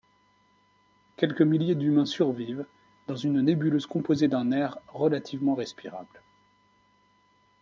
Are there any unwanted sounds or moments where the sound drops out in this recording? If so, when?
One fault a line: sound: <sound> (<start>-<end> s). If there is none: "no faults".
no faults